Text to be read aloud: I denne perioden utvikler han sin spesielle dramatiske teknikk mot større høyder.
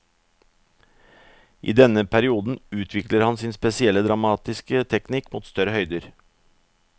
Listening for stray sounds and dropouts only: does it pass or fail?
pass